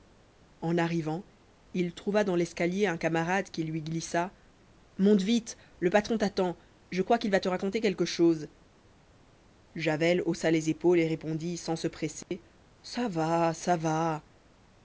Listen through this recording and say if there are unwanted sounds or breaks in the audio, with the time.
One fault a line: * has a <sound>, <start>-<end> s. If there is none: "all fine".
* has a dropout, 12.2-12.3 s